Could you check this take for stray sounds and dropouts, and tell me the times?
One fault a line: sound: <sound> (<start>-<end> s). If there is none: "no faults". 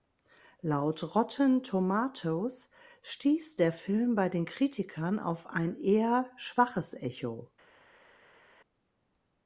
no faults